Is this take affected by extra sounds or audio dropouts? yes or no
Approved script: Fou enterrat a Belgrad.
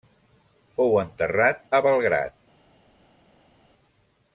no